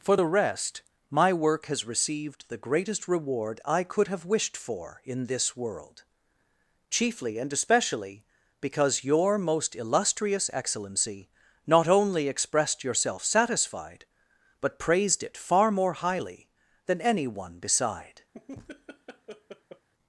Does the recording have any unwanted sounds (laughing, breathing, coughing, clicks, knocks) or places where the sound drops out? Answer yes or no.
yes